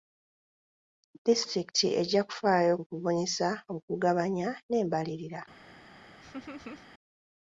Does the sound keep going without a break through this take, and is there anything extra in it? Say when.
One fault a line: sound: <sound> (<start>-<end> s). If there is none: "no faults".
sound: laugh (6.2-6.9 s)